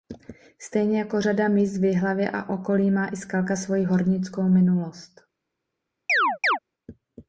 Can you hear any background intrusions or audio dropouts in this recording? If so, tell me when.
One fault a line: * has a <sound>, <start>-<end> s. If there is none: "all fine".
* has a chirp, 6.1-6.6 s